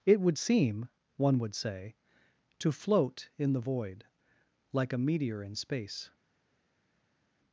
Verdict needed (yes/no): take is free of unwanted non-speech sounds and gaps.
yes